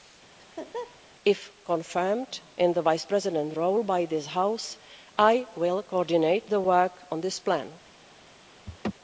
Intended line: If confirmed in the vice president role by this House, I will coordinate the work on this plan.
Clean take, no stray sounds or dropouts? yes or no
no